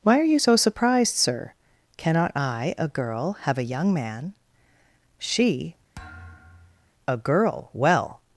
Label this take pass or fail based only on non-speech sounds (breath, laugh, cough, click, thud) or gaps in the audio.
fail